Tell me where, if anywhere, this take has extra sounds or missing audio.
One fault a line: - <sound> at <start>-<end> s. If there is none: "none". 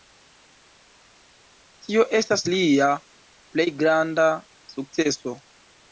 none